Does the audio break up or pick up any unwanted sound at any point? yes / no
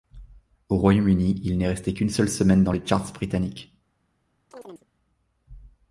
yes